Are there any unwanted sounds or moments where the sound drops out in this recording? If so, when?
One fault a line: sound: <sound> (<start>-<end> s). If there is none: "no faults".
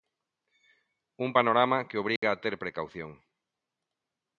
sound: dropout (2.2-2.2 s)